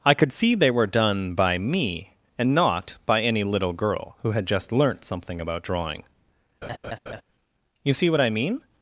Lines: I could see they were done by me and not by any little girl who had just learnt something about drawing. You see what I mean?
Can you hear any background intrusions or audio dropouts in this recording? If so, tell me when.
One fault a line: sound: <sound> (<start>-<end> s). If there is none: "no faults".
sound: laugh (6.6-7.2 s)